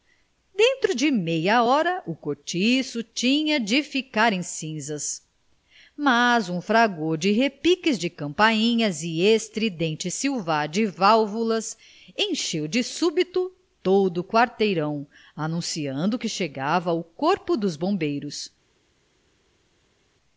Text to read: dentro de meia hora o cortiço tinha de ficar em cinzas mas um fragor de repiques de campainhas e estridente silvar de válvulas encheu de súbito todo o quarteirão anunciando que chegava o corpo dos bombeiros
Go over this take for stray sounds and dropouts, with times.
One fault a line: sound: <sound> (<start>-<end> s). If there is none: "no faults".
no faults